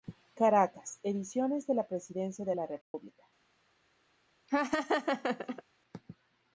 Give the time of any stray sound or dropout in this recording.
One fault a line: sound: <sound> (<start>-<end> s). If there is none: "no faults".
sound: dropout (2.8-2.9 s)
sound: laugh (4.5-5.6 s)